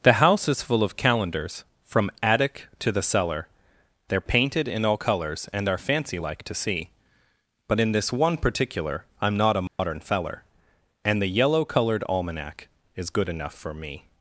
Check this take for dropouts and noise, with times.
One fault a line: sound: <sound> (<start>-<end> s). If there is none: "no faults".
sound: dropout (9.7-9.8 s)